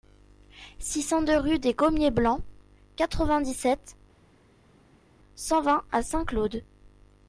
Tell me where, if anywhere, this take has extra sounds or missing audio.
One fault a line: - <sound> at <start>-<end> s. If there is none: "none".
none